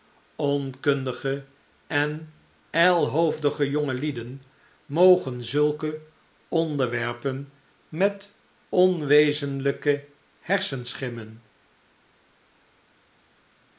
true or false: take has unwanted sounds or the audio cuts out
false